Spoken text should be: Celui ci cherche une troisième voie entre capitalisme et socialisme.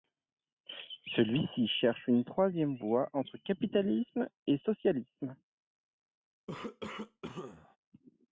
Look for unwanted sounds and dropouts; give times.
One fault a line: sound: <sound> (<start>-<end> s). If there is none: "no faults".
sound: cough (6.5-7.8 s)